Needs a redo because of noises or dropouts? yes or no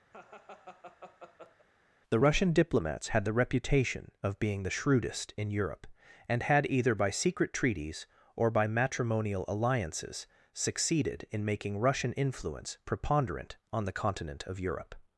yes